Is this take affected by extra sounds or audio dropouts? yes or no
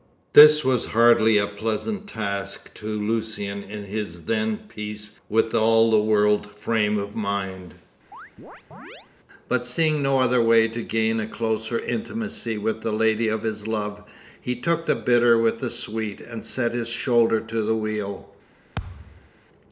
yes